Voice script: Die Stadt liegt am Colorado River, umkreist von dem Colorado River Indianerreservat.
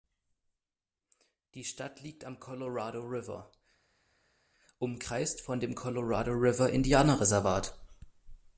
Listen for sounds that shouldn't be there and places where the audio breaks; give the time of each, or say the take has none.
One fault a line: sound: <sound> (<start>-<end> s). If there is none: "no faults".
no faults